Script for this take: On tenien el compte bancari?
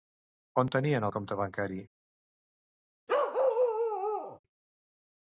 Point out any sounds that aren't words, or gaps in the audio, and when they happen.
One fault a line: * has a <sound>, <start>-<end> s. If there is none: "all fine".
* has a bark, 3.1-4.4 s